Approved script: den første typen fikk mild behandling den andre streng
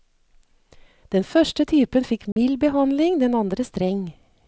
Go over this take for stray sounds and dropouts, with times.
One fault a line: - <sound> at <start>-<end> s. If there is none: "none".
- dropout at 2.3-2.4 s